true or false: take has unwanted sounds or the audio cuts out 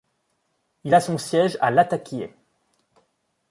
false